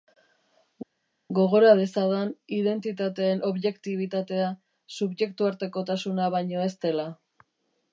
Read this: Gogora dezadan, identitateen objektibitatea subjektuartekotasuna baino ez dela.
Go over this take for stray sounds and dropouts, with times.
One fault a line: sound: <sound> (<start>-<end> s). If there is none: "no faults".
no faults